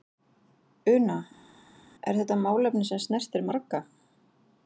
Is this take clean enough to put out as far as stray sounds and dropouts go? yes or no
yes